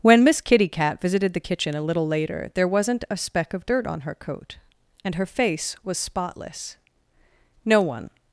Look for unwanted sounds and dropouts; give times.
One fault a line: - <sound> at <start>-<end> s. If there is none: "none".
none